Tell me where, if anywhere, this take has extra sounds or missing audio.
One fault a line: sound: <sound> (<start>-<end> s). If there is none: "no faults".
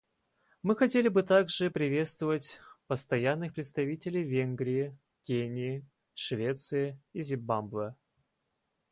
no faults